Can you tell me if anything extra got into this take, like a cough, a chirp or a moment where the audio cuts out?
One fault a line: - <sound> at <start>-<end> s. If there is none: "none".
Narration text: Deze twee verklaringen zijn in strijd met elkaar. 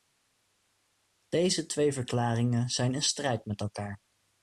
none